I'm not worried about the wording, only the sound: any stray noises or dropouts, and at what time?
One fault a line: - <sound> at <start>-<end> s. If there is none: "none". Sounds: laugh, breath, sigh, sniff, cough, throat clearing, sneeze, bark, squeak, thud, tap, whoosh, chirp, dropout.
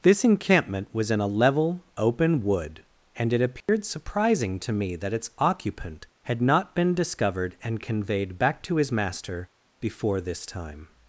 - dropout at 3.6-3.7 s